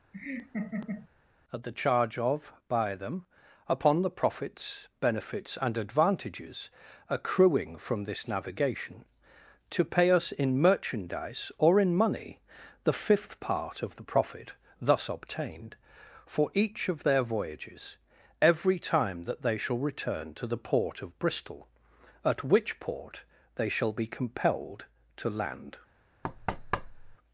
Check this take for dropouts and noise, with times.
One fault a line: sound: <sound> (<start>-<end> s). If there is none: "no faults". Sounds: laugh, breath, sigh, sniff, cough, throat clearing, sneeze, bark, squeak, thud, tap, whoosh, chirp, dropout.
sound: laugh (0.1-1.1 s)
sound: thud (26.2-27.2 s)